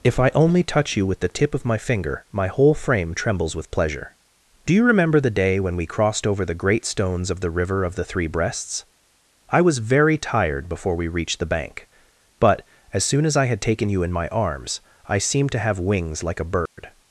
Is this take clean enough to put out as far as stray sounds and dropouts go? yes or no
no